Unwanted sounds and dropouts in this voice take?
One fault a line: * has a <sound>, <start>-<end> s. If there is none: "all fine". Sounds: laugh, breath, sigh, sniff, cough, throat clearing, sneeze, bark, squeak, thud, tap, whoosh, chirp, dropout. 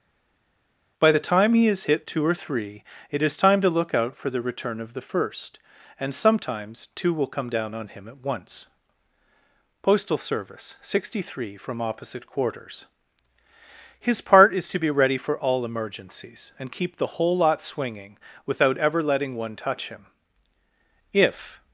all fine